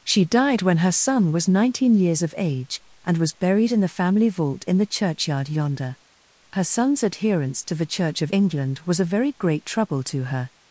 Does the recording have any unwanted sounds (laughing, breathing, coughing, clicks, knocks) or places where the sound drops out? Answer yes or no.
no